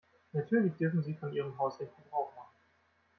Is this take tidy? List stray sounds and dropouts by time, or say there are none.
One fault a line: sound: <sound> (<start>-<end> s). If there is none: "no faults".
no faults